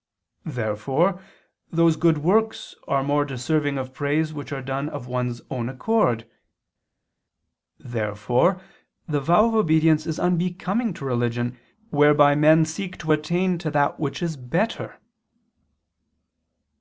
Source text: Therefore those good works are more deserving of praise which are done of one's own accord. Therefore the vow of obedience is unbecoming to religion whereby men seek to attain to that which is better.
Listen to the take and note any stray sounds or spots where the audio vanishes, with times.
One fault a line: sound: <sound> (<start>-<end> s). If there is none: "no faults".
no faults